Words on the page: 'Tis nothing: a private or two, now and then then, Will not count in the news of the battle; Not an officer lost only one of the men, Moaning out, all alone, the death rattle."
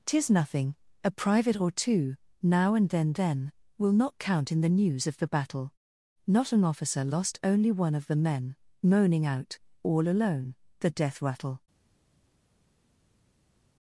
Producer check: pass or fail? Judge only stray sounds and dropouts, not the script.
pass